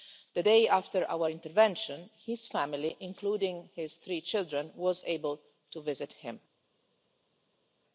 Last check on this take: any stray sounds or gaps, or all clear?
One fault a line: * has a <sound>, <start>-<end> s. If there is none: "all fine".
all fine